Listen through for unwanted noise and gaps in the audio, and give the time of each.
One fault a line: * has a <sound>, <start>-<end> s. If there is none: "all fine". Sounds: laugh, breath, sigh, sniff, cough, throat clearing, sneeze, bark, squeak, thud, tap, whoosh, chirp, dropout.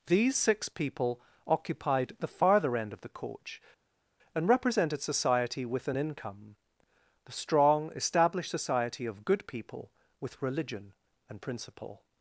all fine